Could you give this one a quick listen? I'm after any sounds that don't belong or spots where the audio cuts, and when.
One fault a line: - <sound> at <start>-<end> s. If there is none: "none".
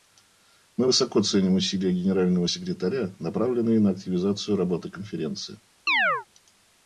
- chirp at 5.9-6.3 s